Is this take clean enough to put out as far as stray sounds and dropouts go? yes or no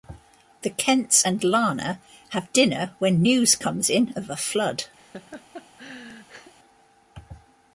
no